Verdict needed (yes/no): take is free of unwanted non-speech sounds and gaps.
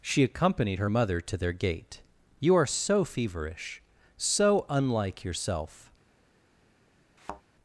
no